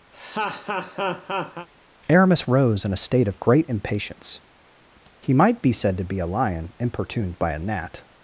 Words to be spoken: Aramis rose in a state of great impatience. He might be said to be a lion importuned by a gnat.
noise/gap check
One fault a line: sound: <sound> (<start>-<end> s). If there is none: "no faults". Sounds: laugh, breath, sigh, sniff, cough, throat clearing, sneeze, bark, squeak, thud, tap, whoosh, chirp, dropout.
sound: laugh (0.1-1.7 s)